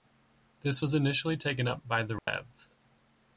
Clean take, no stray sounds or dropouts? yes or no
no